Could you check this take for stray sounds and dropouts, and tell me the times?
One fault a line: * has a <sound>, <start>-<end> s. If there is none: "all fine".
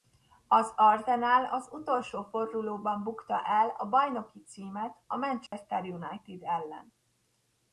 * has a dropout, 5.5-5.5 s